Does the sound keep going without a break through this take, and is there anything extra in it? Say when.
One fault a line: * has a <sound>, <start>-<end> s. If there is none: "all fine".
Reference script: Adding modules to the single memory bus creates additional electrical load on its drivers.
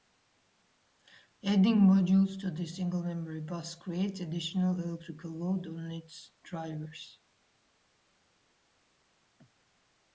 all fine